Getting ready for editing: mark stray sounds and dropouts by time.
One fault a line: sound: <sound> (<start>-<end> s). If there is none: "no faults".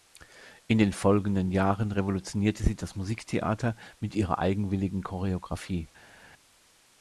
no faults